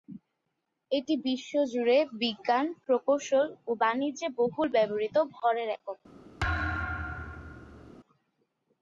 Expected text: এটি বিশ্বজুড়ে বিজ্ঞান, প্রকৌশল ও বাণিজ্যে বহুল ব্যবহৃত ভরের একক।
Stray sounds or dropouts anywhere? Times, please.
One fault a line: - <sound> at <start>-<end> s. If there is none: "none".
- thud at 6.4-7.9 s